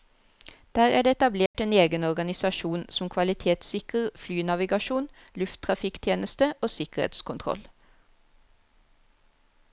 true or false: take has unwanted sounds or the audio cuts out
true